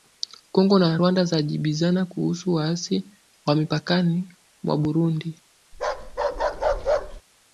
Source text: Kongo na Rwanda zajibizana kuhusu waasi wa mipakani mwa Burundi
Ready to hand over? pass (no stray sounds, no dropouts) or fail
fail